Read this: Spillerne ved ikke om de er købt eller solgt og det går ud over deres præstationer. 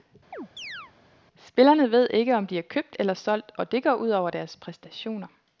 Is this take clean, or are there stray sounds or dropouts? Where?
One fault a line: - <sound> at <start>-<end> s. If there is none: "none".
- chirp at 0.3-0.9 s